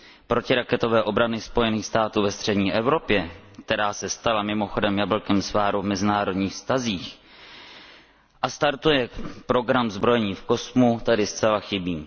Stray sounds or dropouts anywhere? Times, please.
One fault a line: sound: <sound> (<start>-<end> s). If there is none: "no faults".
no faults